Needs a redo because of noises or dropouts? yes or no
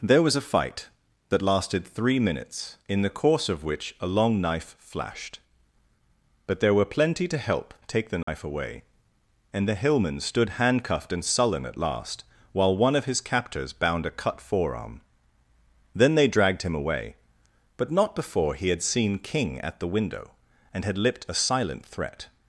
yes